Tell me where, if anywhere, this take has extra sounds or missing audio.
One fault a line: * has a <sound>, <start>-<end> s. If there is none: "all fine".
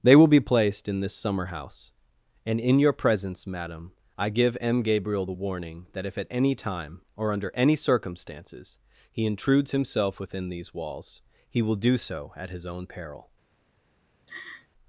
* has a laugh, 14.3-14.7 s